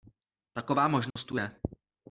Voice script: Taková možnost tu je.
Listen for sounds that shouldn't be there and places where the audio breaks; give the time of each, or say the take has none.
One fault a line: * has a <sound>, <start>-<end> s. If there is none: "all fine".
* has a dropout, 1.1-1.2 s